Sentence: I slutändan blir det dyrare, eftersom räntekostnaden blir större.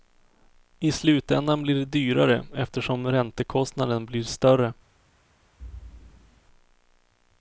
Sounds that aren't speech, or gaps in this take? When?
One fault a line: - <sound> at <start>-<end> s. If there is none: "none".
- thud at 5.6-6.4 s